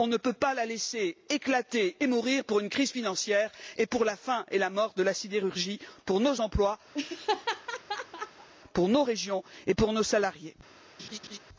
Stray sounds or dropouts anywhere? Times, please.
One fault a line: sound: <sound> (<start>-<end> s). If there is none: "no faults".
sound: laugh (6.9-8.5 s)
sound: laugh (11.0-11.4 s)